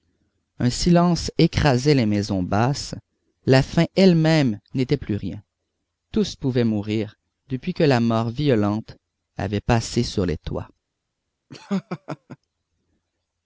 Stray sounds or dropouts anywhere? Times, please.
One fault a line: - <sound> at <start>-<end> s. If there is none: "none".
- laugh at 11.5-12.4 s